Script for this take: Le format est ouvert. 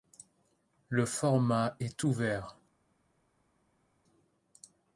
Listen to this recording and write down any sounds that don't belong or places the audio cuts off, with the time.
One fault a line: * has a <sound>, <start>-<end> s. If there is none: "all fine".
all fine